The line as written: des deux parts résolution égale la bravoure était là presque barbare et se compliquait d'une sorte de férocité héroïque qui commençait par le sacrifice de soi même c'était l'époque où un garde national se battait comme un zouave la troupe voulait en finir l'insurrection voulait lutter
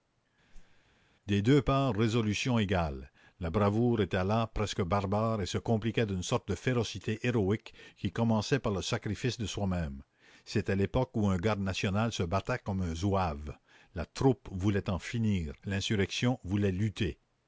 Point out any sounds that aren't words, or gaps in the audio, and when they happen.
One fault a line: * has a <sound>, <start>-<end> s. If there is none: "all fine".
* has a whoosh, 0.5-0.8 s